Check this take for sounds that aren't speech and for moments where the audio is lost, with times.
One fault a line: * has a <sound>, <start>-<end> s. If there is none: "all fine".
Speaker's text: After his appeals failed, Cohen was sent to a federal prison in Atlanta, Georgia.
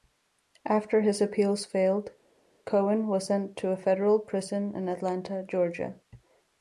all fine